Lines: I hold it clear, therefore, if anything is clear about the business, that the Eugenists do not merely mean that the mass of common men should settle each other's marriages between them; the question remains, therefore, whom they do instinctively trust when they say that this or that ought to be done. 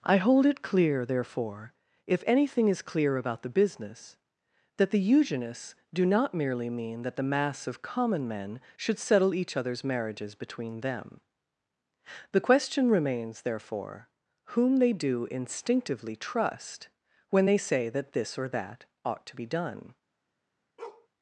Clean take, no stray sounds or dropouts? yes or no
no